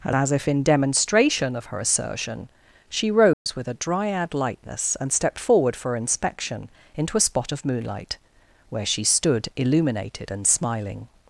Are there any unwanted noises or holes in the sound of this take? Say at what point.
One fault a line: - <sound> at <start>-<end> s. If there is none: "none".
- dropout at 3.3-3.5 s